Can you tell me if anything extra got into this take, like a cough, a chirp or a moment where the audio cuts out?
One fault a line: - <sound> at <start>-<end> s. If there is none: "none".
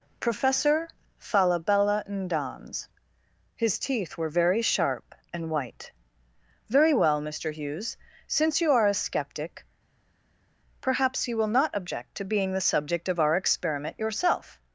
none